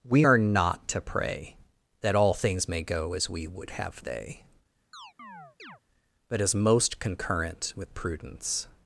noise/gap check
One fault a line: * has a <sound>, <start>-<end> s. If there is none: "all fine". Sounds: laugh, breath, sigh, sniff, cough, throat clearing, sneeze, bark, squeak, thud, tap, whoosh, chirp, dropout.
* has a chirp, 4.9-5.8 s